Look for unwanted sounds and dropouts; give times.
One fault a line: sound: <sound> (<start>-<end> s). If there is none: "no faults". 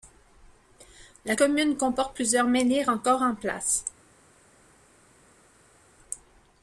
no faults